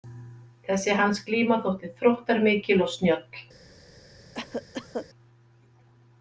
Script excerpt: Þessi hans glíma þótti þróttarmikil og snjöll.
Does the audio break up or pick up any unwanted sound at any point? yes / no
yes